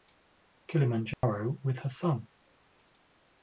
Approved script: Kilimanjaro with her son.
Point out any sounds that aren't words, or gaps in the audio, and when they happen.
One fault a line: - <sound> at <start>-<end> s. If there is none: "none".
- dropout at 1.1-1.2 s